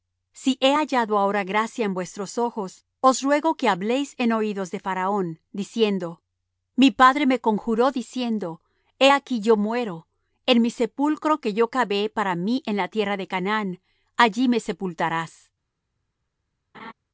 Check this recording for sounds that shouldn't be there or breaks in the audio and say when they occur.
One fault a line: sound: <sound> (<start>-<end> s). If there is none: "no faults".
sound: laugh (16.7-16.9 s)